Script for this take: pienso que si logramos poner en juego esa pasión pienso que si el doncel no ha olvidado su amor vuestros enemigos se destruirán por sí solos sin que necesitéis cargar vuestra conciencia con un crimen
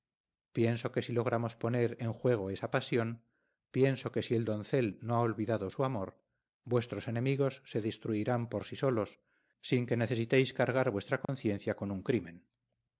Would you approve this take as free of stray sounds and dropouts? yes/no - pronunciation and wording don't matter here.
no